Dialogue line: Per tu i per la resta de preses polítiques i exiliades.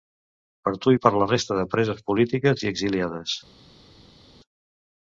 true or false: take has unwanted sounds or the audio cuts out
false